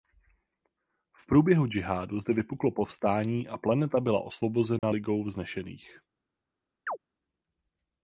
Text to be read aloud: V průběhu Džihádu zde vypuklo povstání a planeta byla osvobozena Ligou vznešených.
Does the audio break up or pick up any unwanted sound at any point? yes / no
yes